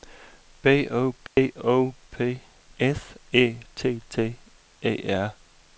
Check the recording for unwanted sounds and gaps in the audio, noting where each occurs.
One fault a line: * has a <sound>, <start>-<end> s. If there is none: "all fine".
* has a dropout, 1.3-1.4 s